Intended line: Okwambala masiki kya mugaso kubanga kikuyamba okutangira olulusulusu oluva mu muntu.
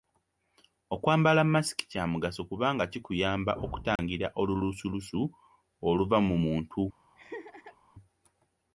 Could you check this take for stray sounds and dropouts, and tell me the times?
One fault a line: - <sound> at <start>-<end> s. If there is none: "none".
- dropout at 4.0-4.0 s
- laugh at 7.1-7.8 s